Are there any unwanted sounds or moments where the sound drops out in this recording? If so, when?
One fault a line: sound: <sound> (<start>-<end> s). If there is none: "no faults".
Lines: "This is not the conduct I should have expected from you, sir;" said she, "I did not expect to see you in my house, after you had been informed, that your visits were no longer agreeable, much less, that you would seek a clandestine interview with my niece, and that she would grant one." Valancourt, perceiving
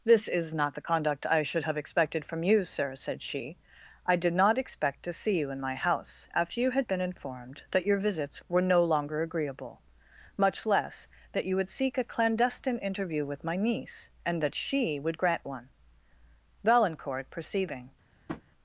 sound: tap (18.3-18.4 s)